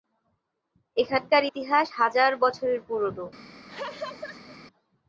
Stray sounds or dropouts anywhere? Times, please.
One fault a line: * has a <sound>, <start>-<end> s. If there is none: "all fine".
* has a laugh, 3.7-4.6 s